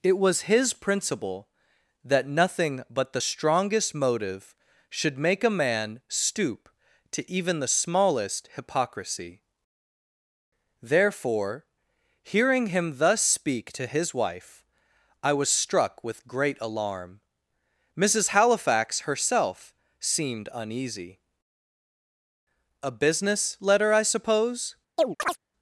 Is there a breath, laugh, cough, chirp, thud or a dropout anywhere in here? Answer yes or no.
yes